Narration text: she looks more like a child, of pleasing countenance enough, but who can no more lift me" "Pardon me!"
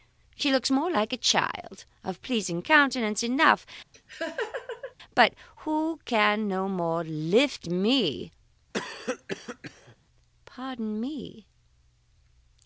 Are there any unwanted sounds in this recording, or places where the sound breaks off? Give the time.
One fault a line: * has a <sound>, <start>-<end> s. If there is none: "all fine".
* has a laugh, 3.9-4.9 s
* has a cough, 8.7-10.0 s